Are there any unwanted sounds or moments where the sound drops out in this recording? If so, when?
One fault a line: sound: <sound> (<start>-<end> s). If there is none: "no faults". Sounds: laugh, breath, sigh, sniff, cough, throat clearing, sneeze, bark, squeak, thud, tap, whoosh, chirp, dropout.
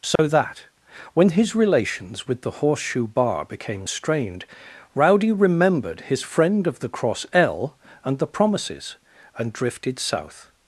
sound: dropout (0.2-0.2 s)